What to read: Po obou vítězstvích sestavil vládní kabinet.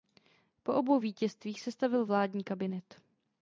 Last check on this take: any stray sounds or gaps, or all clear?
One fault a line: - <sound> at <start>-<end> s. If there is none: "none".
none